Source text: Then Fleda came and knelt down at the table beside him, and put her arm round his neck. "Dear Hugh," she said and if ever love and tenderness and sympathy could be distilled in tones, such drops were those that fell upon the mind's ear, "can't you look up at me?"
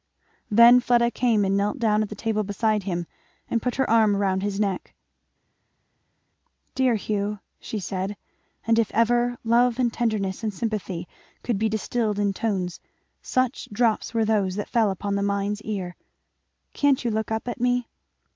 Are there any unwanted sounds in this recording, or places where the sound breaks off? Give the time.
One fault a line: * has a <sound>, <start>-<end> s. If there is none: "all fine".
all fine